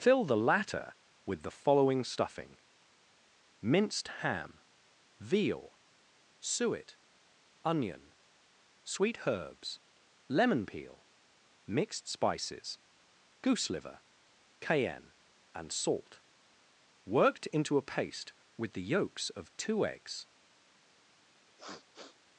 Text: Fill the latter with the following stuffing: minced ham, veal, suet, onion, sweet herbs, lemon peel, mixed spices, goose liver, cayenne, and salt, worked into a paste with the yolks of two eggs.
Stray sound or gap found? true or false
true